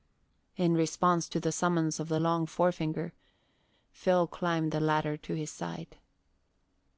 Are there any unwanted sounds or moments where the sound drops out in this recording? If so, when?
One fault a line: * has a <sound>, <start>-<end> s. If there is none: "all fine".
all fine